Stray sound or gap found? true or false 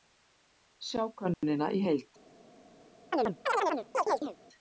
true